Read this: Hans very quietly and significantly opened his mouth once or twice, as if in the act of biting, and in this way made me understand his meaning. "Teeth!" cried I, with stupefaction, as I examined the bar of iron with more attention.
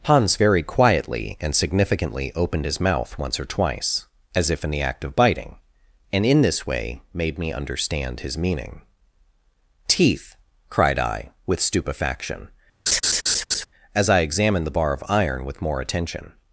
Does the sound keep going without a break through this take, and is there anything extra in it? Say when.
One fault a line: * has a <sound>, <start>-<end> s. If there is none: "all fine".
* has a laugh, 12.9-13.7 s